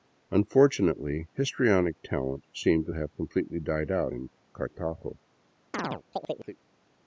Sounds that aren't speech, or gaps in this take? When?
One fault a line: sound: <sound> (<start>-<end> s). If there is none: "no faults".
sound: chirp (5.7-6.6 s)